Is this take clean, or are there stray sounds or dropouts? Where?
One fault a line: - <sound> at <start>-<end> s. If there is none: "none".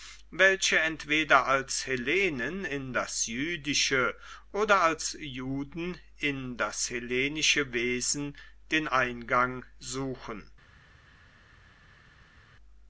none